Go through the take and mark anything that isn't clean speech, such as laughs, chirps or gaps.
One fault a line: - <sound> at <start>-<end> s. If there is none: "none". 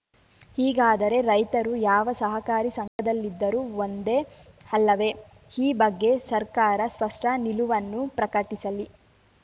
- dropout at 2.9-3.0 s